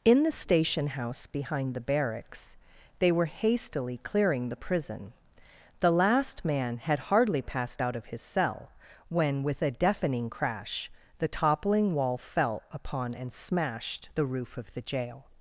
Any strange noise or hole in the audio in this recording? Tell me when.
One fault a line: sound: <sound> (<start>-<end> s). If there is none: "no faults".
no faults